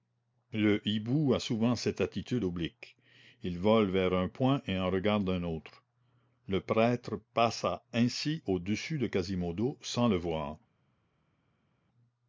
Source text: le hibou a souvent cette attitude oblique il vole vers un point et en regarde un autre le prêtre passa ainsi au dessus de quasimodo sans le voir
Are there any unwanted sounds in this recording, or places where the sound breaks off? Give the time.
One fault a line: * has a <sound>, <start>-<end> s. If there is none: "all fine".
all fine